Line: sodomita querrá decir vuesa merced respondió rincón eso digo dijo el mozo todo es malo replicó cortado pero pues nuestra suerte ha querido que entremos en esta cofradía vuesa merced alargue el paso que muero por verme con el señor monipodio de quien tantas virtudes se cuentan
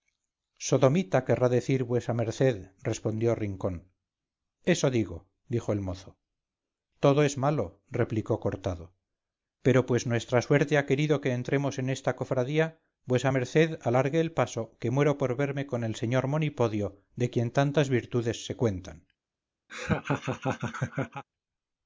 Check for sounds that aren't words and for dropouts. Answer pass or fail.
fail